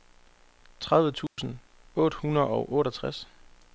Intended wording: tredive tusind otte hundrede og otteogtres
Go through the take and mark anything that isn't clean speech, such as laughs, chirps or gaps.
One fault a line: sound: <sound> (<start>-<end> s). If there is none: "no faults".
sound: dropout (1.3-1.4 s)